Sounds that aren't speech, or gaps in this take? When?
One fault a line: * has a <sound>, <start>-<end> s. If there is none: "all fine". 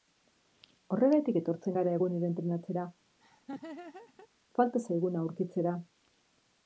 * has a laugh, 3.2-4.3 s